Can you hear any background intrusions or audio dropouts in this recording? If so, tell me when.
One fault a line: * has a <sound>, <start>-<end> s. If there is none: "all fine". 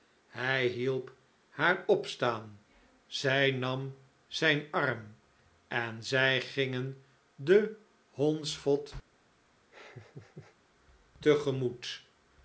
* has a laugh, 9.7-10.6 s